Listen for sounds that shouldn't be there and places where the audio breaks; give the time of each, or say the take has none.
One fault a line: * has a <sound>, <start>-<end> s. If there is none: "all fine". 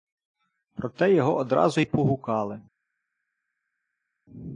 all fine